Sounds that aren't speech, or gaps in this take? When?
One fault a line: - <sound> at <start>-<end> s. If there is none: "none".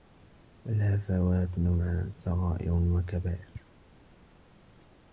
none